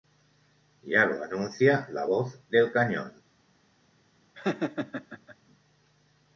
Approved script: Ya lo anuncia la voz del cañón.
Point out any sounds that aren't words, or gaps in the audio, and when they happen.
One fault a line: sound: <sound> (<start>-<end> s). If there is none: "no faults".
sound: laugh (4.3-5.4 s)